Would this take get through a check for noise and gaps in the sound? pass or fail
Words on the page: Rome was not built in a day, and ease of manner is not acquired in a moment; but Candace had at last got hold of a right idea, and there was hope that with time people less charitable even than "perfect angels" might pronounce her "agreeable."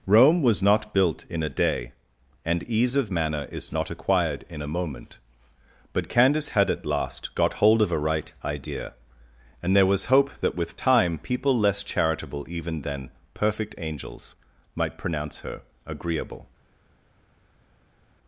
pass